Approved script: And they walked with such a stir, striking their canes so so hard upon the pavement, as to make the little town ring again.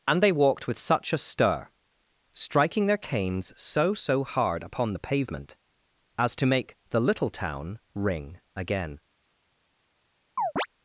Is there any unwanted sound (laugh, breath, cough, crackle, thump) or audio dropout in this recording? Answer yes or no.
yes